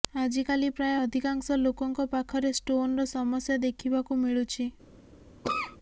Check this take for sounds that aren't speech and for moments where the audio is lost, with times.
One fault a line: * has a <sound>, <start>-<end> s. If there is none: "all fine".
* has a cough, 5.4-5.8 s